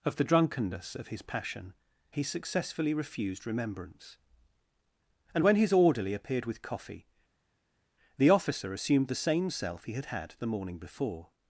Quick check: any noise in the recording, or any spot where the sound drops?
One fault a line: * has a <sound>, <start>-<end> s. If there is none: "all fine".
all fine